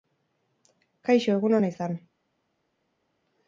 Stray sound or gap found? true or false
false